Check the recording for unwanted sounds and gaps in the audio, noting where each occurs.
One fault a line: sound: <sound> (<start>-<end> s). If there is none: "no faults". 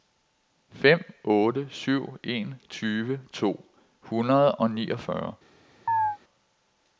sound: chirp (5.9-6.2 s)